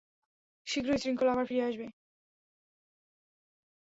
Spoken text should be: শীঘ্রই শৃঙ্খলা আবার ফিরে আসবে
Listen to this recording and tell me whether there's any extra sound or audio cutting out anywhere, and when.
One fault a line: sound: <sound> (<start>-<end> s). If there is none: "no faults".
no faults